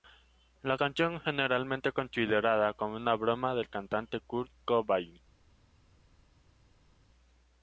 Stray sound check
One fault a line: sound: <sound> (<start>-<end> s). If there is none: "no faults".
no faults